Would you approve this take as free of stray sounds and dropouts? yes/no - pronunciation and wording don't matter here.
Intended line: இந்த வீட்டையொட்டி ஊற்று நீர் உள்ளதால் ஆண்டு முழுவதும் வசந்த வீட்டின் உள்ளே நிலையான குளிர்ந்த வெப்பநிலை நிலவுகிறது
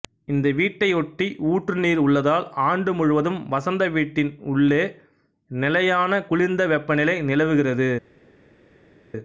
yes